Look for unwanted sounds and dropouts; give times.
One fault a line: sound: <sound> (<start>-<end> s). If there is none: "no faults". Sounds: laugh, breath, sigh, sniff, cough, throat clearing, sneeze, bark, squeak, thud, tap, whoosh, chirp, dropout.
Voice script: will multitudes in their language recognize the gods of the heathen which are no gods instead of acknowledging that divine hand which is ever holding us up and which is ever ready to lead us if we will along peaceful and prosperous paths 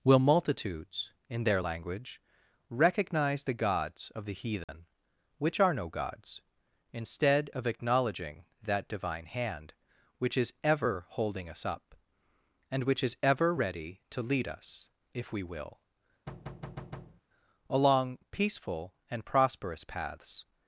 sound: dropout (4.6-4.7 s)
sound: thud (16.3-17.2 s)